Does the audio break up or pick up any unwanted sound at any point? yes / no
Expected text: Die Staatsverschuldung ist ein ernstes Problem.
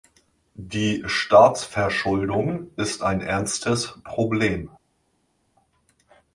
no